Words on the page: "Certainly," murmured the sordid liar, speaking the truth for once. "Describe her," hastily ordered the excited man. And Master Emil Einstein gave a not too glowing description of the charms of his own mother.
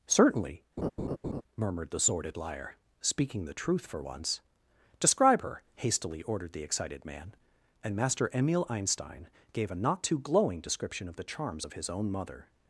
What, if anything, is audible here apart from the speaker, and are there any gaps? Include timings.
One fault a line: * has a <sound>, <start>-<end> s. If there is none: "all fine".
* has a laugh, 0.8-1.4 s